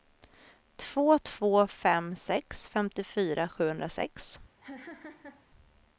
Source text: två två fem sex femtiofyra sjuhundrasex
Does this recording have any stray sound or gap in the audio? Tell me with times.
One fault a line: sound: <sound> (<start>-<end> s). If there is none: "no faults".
sound: laugh (4.6-5.5 s)